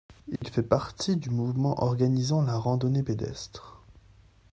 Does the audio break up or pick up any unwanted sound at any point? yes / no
yes